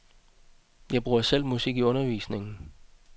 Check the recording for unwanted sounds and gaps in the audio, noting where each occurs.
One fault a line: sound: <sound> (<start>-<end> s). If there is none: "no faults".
no faults